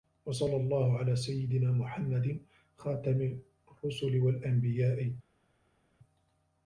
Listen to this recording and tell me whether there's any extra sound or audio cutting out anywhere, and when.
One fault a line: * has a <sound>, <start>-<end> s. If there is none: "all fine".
all fine